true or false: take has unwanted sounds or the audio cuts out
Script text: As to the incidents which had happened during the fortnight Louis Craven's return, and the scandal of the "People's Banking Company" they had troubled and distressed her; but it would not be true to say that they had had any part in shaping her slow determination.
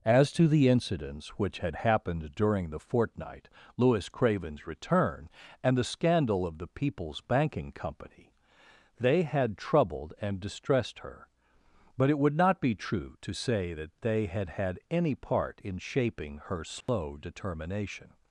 true